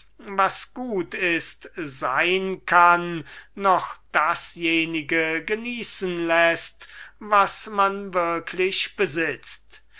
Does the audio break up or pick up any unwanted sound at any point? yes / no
no